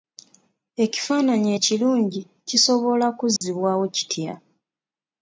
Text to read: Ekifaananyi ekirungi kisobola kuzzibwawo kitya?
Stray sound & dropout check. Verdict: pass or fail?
fail